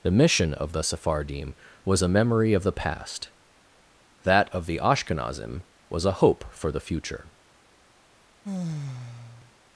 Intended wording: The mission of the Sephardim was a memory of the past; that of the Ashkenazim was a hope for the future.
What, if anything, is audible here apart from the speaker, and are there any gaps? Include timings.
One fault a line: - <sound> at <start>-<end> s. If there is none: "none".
- sigh at 8.4-9.5 s